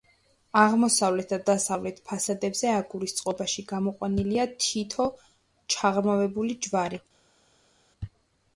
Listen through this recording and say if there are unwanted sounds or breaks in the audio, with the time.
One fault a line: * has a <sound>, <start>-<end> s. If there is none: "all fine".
all fine